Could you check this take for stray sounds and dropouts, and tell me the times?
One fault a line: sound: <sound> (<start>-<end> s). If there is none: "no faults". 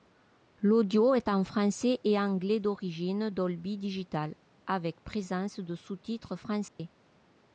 sound: dropout (6.7-6.8 s)